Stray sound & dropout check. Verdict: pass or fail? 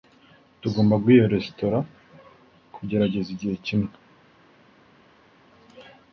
pass